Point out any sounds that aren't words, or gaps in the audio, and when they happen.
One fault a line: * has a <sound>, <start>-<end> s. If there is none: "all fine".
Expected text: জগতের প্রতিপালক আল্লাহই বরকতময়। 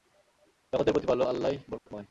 * has a dropout, 1.8-1.9 s